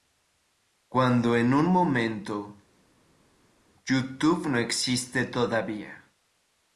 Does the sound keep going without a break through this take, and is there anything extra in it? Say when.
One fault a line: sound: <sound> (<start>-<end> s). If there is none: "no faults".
no faults